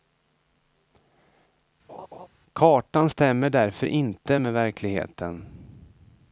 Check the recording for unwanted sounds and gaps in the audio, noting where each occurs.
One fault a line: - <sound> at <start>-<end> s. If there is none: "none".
- laugh at 1.9-2.3 s